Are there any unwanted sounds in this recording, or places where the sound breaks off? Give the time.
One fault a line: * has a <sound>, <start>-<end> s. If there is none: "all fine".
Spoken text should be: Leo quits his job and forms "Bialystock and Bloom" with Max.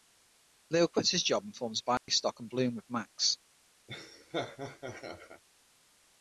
* has a dropout, 2.0-2.1 s
* has a laugh, 3.9-5.4 s